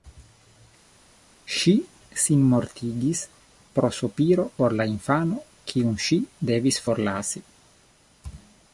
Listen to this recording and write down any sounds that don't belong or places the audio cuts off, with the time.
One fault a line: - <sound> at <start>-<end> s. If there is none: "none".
none